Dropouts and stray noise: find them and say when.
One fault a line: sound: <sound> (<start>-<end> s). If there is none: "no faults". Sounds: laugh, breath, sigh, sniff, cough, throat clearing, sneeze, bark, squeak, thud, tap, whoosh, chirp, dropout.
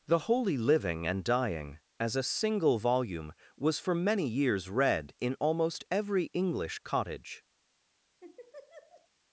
sound: laugh (8.2-9.1 s)